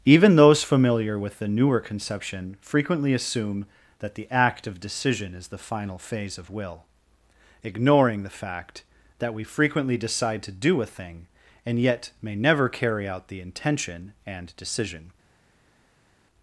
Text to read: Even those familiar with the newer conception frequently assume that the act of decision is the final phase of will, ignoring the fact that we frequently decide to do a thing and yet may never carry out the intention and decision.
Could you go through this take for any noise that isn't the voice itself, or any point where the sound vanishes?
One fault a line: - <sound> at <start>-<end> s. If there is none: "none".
none